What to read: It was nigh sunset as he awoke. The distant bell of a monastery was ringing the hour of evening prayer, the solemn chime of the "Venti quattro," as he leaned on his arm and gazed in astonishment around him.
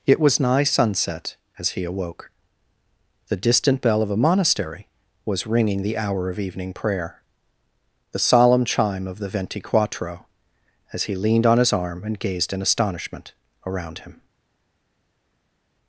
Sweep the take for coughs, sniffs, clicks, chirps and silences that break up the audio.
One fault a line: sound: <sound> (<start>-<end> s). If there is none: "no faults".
no faults